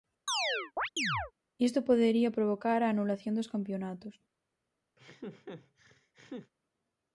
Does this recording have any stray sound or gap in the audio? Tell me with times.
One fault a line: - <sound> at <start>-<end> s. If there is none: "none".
- chirp at 0.3-1.3 s
- laugh at 5.0-6.5 s